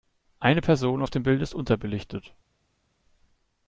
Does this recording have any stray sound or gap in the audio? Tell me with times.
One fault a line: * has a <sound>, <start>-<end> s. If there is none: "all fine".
all fine